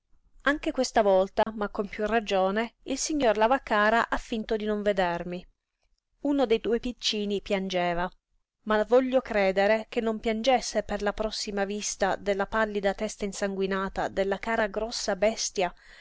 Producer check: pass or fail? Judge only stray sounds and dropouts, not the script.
fail